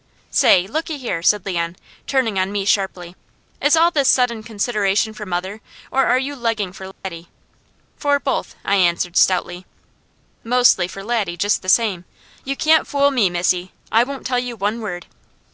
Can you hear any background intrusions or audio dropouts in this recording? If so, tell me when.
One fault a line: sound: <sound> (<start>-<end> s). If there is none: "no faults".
sound: dropout (6.9-7.0 s)